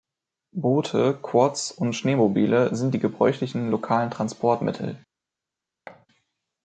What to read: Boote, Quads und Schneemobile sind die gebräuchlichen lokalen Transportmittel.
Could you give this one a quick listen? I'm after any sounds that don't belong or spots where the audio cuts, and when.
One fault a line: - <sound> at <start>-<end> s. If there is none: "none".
- thud at 5.9-6.1 s